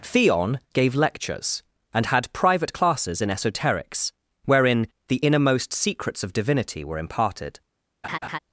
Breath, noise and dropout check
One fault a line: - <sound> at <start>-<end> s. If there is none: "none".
- laugh at 8.0-8.4 s